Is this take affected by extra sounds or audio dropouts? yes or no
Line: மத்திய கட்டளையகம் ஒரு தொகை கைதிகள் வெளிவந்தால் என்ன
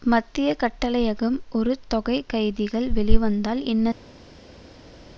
no